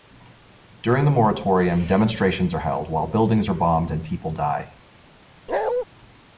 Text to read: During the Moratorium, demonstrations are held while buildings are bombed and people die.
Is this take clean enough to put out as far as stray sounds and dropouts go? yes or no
no